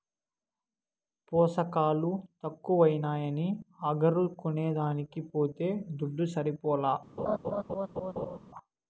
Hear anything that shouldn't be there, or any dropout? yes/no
yes